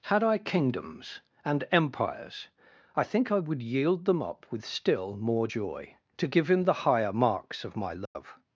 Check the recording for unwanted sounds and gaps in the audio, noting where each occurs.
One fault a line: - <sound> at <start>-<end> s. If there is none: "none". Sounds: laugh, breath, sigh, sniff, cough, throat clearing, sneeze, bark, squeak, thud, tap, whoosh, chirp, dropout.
- dropout at 8.1-8.2 s